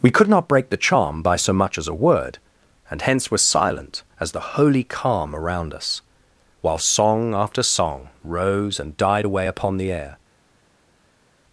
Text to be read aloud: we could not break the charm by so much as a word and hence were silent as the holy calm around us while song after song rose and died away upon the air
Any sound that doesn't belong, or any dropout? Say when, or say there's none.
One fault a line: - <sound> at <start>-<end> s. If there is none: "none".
none